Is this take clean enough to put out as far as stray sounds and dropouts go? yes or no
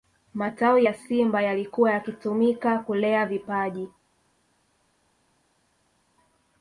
yes